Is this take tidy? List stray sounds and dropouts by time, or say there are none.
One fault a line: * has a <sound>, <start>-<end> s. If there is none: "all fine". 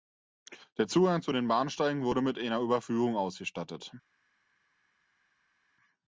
all fine